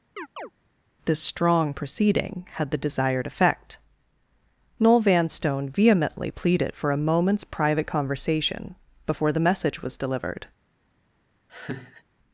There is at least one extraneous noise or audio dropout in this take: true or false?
true